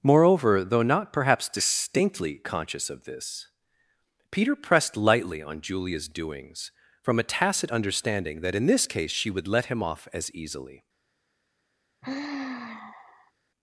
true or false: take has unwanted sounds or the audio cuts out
true